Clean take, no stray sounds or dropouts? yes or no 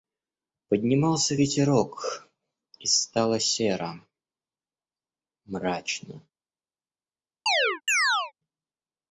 no